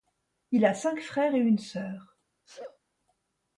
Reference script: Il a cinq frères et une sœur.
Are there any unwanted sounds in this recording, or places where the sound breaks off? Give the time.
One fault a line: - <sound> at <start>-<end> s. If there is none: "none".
- sneeze at 2.5-2.8 s